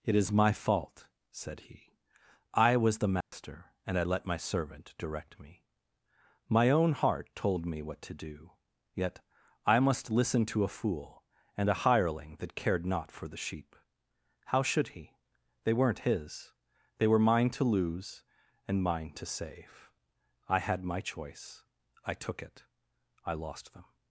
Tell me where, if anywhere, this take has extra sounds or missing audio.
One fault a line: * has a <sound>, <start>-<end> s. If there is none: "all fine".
* has a dropout, 3.2-3.3 s